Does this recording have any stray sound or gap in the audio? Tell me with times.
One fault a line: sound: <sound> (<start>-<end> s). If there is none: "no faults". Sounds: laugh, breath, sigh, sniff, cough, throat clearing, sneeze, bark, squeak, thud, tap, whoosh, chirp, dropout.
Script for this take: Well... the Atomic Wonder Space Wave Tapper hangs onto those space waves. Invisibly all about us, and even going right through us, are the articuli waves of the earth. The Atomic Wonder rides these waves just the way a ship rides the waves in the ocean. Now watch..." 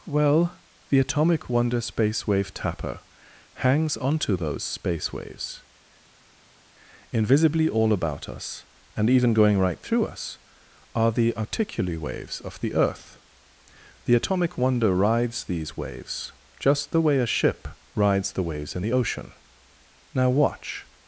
no faults